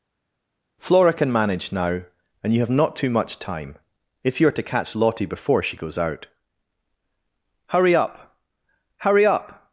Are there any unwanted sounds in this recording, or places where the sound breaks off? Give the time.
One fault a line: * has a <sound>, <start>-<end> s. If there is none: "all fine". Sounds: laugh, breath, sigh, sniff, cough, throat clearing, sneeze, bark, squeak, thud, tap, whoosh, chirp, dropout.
all fine